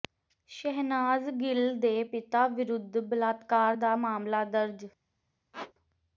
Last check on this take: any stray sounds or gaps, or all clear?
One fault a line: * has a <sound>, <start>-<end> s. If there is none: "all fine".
* has a squeak, 5.5-5.7 s